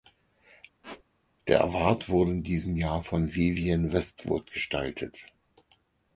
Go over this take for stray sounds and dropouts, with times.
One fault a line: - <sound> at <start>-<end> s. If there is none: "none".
- squeak at 0.8-1.0 s